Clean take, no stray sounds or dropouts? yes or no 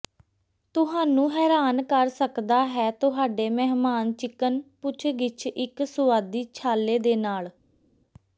yes